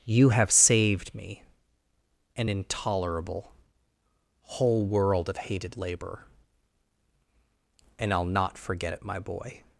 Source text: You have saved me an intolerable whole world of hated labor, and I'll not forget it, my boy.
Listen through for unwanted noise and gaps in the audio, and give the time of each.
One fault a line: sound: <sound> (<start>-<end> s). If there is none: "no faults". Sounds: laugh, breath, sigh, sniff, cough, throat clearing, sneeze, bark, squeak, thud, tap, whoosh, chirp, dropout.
no faults